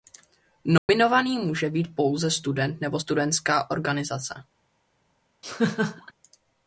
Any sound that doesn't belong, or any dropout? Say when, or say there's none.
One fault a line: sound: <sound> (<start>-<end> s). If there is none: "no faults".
sound: dropout (0.8-0.9 s)
sound: laugh (5.4-6.1 s)